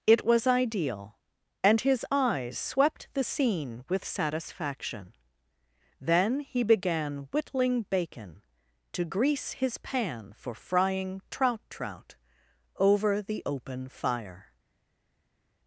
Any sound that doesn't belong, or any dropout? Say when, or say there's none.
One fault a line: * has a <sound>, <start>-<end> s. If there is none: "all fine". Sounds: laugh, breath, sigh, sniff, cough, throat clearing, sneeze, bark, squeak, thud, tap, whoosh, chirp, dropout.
all fine